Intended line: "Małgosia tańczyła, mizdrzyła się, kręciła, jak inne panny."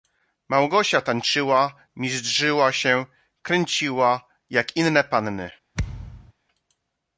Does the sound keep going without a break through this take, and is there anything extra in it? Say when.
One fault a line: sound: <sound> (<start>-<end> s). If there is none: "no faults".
sound: thud (5.7-6.3 s)